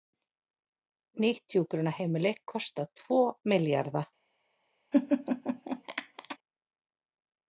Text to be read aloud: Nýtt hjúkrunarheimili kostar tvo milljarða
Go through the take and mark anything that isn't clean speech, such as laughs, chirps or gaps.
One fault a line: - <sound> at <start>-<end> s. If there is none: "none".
- laugh at 4.9-6.4 s